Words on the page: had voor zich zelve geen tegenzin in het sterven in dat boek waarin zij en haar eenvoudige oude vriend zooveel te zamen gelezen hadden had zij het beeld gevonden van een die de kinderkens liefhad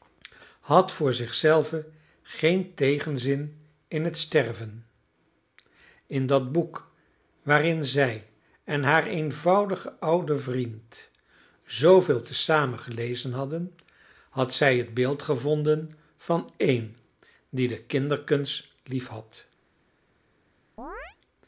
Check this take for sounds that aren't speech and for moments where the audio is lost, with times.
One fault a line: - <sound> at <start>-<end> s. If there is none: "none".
- chirp at 20.8-21.2 s